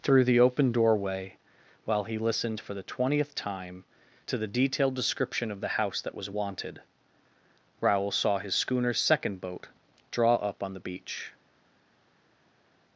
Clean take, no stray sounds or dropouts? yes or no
yes